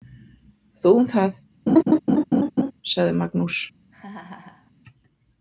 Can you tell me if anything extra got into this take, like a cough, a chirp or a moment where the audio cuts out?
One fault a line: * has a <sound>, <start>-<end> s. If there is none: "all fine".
* has a laugh, 1.7-2.7 s
* has a laugh, 3.9-4.7 s